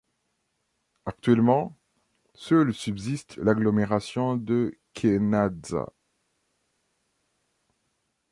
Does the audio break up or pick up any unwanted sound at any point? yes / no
no